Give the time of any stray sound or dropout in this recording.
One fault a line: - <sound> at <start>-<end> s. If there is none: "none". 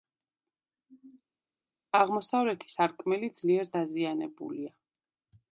none